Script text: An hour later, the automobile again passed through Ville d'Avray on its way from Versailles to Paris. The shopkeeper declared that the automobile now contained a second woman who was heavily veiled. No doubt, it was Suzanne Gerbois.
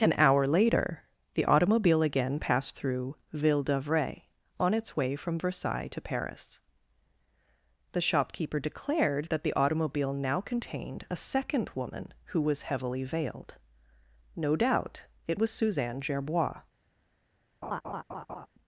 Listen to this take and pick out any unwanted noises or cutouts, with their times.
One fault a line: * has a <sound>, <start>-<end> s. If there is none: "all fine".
* has a laugh, 17.6-18.5 s